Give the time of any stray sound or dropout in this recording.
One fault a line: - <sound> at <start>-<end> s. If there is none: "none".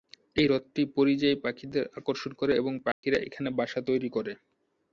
- dropout at 2.9-3.0 s